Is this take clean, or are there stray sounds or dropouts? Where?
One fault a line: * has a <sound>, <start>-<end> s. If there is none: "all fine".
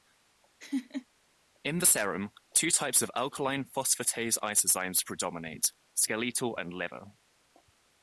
* has a laugh, 0.6-1.1 s